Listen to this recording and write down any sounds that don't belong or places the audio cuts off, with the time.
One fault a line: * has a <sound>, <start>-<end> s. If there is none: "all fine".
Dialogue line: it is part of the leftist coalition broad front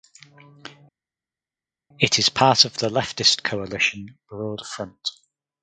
all fine